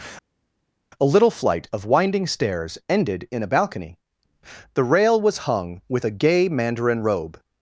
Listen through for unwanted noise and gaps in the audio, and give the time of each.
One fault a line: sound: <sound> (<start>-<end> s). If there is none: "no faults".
no faults